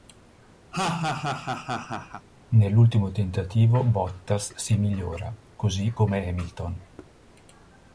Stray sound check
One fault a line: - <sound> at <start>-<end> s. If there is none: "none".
- laugh at 0.7-2.3 s
- thud at 7.0-7.2 s